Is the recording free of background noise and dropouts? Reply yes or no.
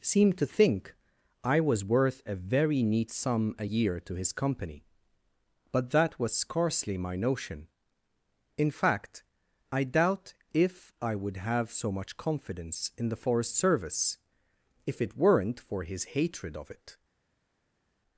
yes